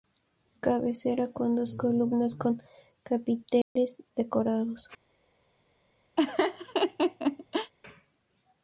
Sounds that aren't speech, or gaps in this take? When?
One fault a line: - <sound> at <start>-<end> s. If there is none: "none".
- dropout at 3.6-3.8 s
- laugh at 6.2-7.7 s